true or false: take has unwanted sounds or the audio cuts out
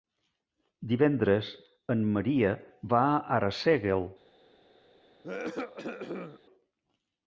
true